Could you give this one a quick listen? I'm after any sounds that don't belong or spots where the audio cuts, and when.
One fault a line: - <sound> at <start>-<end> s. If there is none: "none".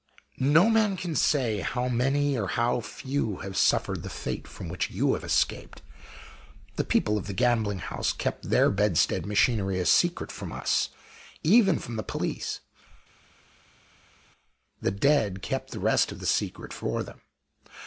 none